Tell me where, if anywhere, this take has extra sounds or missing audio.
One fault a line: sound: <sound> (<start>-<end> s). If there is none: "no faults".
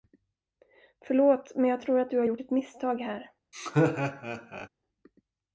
sound: laugh (3.5-4.7 s)